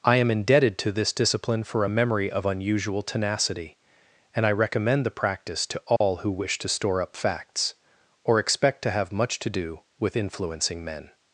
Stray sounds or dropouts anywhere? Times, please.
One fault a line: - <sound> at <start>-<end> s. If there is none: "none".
- dropout at 6.0-6.0 s